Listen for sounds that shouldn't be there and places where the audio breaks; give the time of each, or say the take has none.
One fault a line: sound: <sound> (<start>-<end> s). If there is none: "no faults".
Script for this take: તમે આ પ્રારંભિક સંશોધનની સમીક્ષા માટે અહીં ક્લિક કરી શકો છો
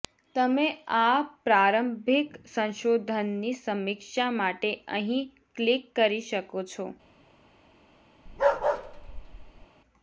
sound: bark (8.3-9.7 s)